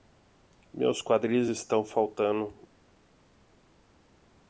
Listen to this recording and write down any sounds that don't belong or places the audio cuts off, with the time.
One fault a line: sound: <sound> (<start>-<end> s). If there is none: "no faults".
no faults